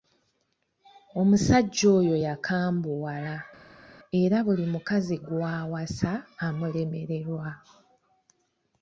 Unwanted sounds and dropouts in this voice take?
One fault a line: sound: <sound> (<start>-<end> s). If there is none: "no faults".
no faults